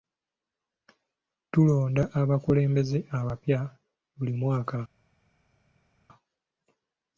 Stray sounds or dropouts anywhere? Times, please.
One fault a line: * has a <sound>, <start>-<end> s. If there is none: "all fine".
all fine